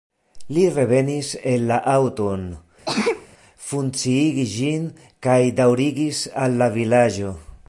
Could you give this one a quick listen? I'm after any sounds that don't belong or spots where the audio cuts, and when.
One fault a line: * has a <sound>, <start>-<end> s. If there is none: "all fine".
* has a sneeze, 2.8-3.3 s